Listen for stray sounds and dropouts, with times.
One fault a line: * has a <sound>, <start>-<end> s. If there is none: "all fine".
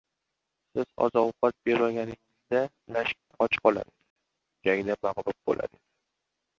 * has a dropout, 3.2-3.3 s